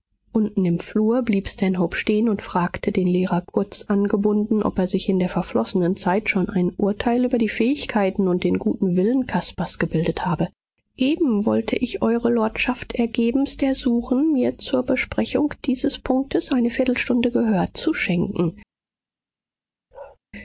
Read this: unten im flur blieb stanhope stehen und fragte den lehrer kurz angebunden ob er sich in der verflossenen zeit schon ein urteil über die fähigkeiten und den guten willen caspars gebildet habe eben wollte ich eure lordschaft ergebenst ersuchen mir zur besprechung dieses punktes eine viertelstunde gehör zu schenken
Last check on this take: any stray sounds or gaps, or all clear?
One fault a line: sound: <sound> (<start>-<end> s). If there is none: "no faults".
sound: bark (19.9-20.2 s)